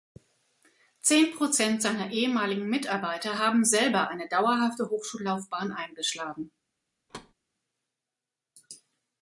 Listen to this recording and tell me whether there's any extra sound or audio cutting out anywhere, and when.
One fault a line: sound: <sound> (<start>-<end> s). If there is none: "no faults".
sound: thud (7.1-7.3 s)